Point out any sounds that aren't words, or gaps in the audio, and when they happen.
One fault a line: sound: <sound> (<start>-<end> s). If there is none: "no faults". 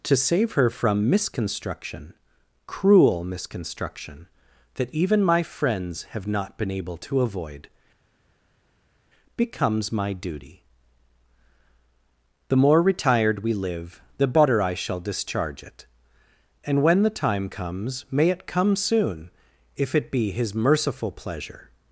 no faults